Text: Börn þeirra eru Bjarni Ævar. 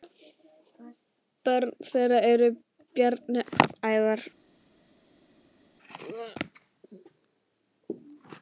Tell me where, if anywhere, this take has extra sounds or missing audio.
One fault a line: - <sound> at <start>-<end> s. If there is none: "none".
none